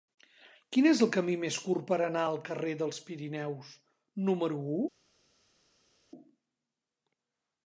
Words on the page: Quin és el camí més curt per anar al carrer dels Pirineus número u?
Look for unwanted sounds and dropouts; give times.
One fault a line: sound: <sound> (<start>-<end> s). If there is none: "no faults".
no faults